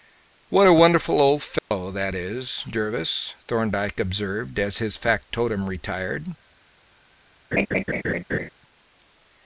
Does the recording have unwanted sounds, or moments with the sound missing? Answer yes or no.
yes